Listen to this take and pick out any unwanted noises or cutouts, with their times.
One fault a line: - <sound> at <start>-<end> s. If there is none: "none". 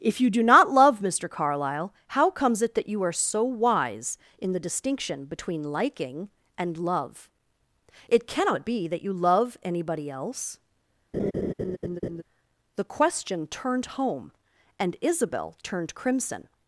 - laugh at 11.1-12.2 s